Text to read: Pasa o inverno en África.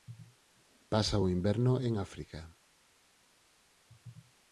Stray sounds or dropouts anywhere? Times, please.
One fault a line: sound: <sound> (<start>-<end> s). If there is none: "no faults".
no faults